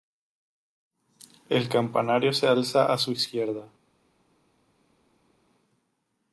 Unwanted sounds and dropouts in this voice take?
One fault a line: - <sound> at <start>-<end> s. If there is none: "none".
none